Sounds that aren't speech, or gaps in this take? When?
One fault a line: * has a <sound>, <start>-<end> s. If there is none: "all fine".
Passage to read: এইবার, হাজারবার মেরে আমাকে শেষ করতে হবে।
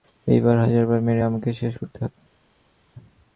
all fine